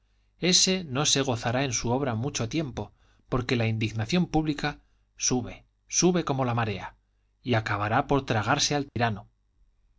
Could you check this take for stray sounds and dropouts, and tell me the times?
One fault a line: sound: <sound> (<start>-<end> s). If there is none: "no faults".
sound: dropout (8.9-9.0 s)